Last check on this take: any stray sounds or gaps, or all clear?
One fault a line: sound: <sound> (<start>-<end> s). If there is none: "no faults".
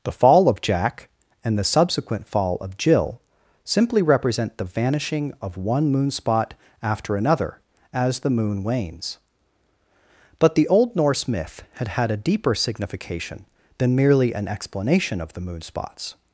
no faults